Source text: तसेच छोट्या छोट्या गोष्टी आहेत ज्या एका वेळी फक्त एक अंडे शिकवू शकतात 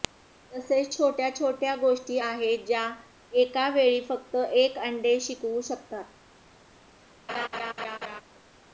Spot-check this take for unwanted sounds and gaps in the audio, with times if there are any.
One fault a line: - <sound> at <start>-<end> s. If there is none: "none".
- laugh at 7.3-8.2 s